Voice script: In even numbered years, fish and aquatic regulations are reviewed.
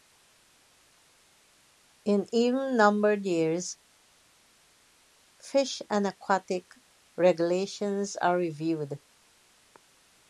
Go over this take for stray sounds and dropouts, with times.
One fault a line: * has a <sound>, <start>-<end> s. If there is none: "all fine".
all fine